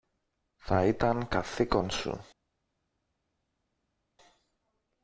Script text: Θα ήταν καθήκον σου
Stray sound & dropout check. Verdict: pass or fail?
pass